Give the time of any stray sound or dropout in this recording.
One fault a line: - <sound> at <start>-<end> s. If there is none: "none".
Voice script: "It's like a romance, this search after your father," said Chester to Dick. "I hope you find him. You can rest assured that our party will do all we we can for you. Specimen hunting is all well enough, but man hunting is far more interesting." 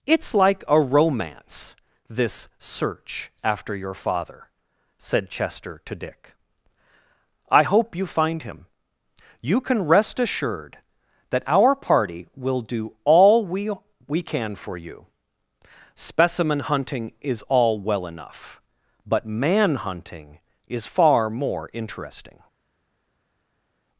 none